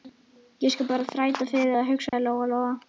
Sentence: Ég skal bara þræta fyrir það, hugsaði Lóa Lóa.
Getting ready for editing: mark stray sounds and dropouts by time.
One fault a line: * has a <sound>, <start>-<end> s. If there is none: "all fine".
* has a dropout, 2.1-2.1 s